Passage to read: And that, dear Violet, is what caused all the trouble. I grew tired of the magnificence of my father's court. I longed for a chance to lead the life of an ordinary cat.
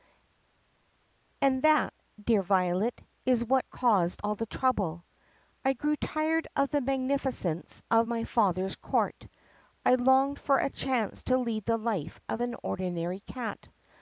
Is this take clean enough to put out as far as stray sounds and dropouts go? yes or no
yes